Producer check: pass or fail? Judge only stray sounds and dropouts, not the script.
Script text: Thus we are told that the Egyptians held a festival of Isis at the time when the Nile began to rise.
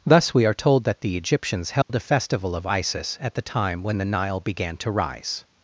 fail